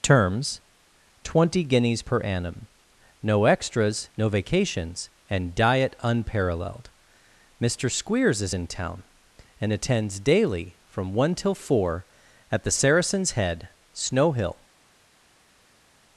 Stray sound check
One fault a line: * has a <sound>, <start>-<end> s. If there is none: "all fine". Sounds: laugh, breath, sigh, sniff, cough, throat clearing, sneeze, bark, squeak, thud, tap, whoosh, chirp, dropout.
all fine